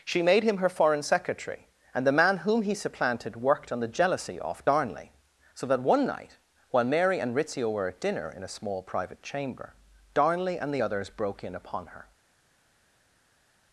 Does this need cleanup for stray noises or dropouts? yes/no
no